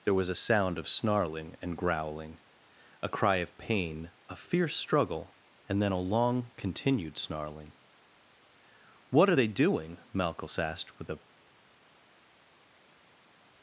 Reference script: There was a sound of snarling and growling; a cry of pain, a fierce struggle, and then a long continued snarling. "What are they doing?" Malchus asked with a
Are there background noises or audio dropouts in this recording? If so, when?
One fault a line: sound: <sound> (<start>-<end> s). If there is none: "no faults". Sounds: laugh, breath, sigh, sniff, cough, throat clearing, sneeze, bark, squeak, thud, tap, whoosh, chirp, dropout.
no faults